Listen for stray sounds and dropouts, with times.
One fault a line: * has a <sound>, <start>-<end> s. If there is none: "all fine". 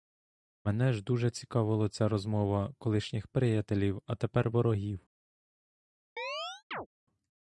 * has a chirp, 6.2-6.9 s